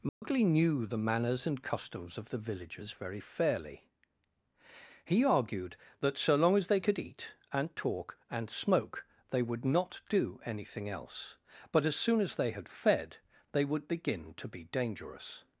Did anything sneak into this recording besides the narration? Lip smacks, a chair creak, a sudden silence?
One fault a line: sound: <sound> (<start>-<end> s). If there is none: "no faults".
sound: dropout (0.1-0.2 s)